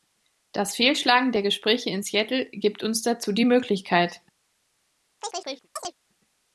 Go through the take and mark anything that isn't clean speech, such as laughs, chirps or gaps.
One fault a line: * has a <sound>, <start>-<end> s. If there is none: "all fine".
* has a chirp, 5.2-5.9 s